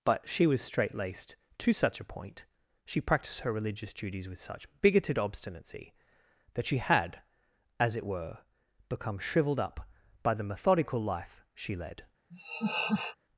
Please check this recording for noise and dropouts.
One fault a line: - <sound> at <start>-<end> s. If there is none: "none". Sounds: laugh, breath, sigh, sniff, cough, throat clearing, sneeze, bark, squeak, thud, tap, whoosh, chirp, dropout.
- laugh at 12.3-13.2 s